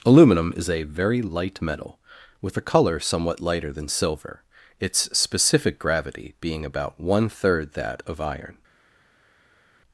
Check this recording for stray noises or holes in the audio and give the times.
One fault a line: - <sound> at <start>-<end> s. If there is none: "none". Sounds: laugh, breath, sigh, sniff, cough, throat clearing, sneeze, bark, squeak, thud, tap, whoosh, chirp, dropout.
none